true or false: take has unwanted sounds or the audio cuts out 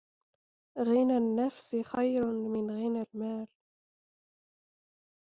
false